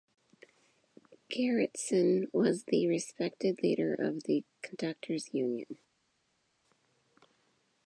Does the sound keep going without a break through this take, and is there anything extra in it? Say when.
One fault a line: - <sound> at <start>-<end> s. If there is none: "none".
none